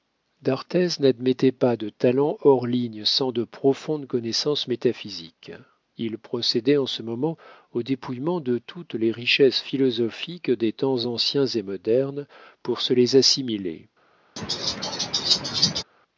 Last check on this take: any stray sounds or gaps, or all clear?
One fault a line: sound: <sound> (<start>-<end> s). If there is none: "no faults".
sound: laugh (14.4-15.8 s)